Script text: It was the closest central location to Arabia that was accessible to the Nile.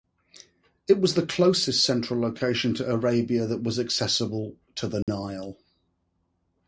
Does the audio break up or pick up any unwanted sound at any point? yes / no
yes